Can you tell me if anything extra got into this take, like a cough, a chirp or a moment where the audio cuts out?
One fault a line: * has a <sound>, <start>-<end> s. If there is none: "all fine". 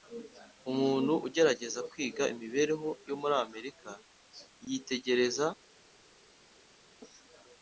all fine